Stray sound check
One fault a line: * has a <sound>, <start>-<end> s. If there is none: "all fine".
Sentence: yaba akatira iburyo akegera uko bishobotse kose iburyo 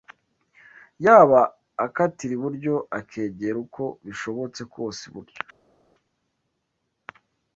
all fine